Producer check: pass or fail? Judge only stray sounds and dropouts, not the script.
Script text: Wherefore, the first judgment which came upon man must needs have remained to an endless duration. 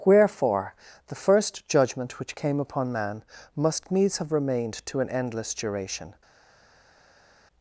pass